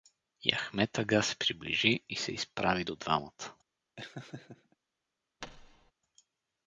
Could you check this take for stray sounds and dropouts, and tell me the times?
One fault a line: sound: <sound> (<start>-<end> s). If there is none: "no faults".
sound: laugh (4.0-4.8 s)
sound: thud (5.4-5.9 s)